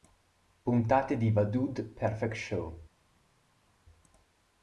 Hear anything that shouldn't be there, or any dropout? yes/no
no